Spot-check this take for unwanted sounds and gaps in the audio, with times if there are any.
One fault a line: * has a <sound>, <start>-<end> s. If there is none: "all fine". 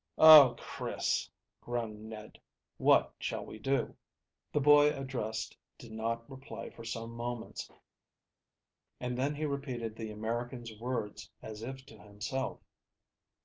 all fine